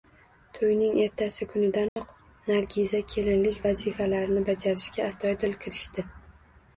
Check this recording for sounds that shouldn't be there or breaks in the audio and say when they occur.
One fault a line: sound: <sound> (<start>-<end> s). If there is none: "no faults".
sound: dropout (1.9-2.0 s)